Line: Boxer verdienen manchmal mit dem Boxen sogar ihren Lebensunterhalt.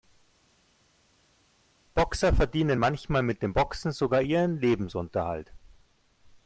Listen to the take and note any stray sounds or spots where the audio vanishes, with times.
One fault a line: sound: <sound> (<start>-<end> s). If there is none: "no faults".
no faults